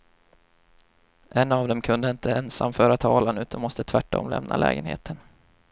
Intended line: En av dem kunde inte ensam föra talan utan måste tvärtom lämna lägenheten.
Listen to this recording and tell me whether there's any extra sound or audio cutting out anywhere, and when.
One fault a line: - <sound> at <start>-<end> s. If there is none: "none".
none